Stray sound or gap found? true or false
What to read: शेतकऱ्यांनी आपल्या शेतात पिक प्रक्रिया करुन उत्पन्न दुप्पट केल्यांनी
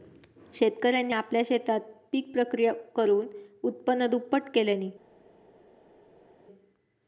false